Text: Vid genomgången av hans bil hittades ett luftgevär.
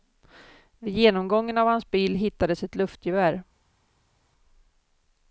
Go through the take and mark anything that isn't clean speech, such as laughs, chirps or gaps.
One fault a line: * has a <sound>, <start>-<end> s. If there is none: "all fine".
all fine